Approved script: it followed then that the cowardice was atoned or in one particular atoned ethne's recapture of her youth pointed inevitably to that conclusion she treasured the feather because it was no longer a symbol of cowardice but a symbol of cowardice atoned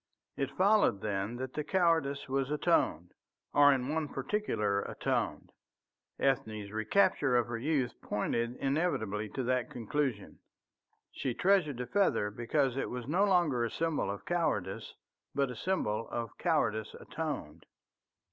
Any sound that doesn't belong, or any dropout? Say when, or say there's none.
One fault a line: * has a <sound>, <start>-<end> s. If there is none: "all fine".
all fine